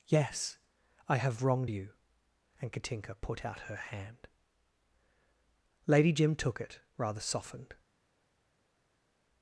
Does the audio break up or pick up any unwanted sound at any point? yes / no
no